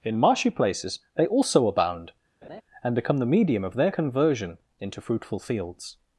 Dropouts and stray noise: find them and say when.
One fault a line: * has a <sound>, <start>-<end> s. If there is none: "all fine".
* has a laugh, 2.4-2.6 s